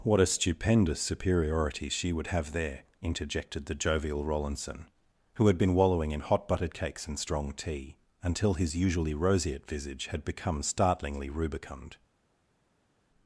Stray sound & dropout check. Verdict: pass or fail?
pass